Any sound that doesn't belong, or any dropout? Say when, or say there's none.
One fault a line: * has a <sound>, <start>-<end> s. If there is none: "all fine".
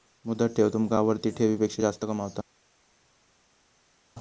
all fine